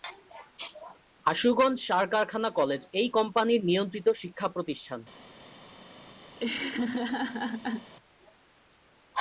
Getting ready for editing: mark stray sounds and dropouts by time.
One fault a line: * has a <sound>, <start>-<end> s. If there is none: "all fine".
* has a laugh, 6.4-7.9 s